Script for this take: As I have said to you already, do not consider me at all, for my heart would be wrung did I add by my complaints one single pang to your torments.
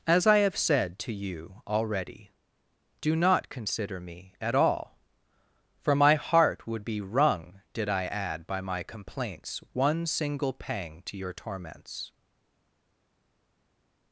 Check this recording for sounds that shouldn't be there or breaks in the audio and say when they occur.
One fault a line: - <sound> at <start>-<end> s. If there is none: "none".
none